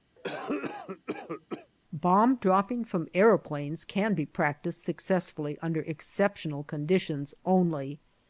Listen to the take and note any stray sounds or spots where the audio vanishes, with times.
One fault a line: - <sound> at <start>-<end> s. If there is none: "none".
- cough at 0.2-1.7 s